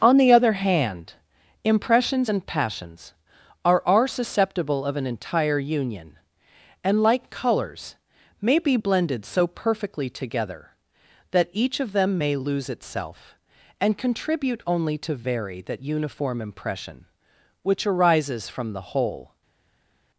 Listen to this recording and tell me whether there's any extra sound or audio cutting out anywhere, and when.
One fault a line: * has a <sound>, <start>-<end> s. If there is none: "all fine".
all fine